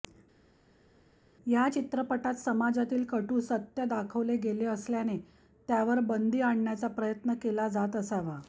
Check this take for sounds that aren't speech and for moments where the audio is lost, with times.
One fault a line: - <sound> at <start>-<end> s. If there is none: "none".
none